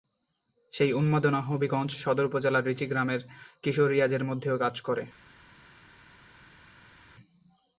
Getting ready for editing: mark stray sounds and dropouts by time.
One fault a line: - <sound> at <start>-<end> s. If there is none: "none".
none